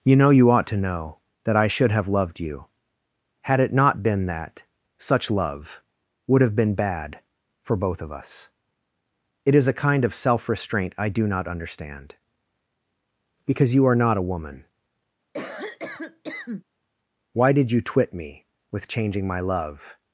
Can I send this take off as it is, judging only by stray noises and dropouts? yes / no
no